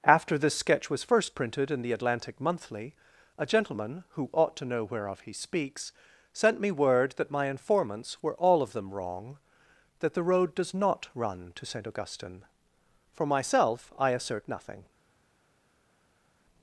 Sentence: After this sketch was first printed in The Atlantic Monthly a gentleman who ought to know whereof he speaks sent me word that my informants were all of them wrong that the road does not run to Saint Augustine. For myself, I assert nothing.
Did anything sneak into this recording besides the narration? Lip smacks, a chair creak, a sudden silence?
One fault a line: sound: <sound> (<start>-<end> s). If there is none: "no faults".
no faults